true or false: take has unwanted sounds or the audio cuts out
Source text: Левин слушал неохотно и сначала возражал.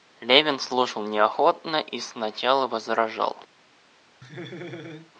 true